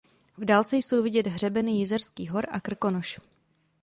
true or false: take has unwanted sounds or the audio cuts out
false